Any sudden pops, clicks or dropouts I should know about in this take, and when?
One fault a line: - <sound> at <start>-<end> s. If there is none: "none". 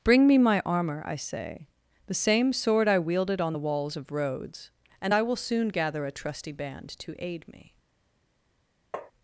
- tap at 8.9-9.1 s